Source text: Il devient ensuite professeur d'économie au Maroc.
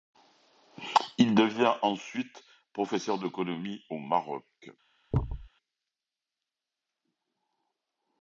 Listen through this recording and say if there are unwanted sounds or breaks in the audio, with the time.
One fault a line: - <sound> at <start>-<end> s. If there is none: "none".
- thud at 5.1-5.5 s